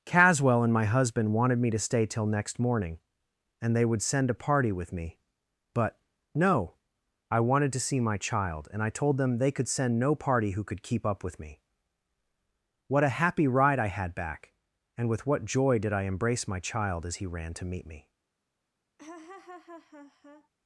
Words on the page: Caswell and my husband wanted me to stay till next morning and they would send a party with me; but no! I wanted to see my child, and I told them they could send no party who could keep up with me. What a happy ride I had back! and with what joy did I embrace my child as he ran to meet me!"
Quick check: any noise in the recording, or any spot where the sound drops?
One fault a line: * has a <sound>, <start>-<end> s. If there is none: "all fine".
* has a laugh, 19.0-20.5 s